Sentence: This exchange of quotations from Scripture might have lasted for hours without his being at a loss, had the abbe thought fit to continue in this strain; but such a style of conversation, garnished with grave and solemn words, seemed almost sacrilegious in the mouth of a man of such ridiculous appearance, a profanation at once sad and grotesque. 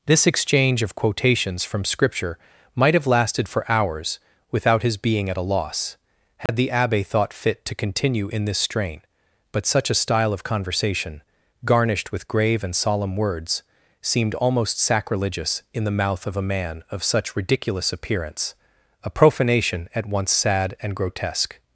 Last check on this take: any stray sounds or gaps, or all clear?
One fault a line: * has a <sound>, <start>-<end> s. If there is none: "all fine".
* has a dropout, 6.5-6.5 s